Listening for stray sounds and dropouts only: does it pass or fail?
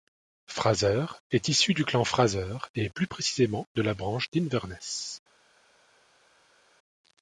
pass